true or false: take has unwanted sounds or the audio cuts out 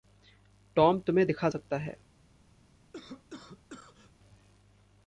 true